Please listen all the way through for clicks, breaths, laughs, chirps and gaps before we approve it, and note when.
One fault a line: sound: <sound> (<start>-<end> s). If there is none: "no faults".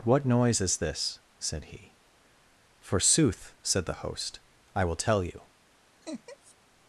sound: laugh (6.0-6.5 s)